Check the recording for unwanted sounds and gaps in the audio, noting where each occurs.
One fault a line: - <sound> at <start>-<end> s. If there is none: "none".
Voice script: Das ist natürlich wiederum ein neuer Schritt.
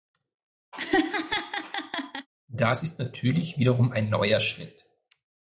- laugh at 0.7-2.3 s